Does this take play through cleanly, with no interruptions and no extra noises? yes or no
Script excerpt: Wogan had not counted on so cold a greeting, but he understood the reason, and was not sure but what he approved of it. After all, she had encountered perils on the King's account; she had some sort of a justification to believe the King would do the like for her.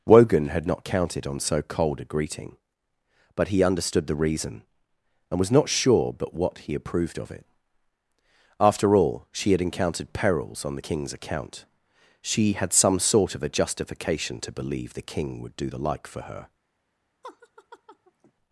no